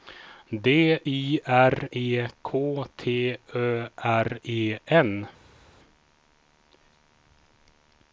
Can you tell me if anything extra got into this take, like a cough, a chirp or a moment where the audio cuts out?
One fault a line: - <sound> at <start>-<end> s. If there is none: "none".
none